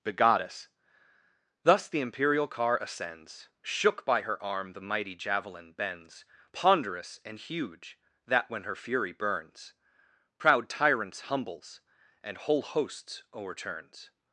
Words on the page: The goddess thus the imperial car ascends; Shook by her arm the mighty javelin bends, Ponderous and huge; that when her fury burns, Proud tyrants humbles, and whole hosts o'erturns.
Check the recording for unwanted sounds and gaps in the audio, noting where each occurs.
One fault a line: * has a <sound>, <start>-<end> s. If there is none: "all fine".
all fine